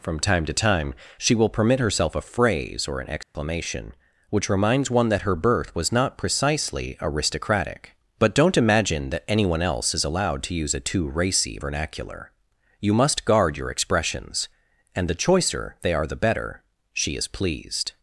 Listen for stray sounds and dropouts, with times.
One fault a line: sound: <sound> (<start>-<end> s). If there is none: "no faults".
sound: dropout (3.2-3.3 s)